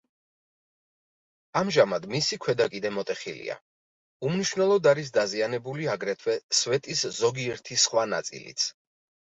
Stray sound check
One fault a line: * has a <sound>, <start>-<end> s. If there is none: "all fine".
all fine